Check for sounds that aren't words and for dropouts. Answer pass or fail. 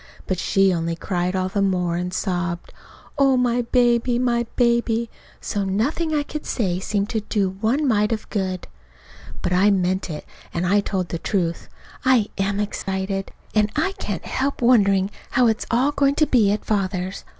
fail